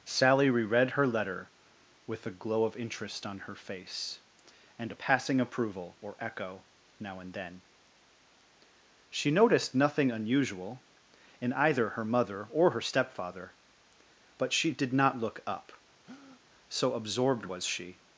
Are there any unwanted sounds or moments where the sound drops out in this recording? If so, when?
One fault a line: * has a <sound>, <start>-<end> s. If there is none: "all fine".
* has a breath, 16.0-16.4 s